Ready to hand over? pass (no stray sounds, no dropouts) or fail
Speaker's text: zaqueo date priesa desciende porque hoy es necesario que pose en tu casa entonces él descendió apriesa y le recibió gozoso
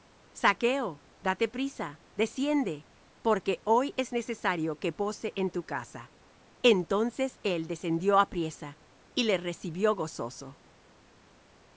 pass